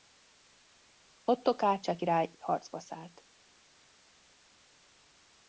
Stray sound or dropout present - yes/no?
no